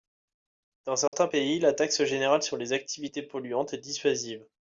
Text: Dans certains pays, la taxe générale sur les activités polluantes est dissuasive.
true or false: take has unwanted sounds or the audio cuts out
true